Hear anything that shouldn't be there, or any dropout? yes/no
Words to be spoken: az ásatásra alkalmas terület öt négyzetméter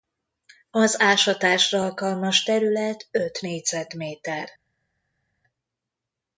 no